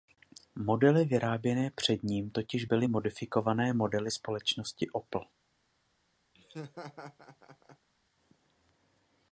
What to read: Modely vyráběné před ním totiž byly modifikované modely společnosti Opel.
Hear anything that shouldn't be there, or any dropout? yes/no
yes